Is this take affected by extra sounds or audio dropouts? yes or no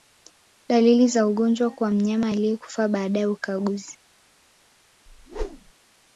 yes